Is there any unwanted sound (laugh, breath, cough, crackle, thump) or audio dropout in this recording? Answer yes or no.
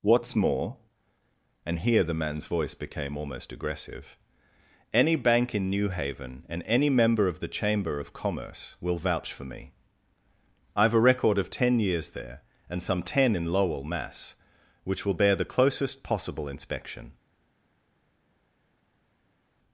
no